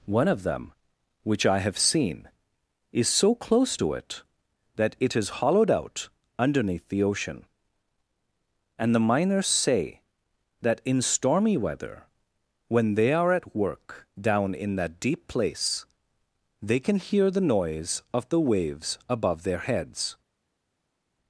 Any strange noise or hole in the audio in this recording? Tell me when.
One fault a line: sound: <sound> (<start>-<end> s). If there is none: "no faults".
no faults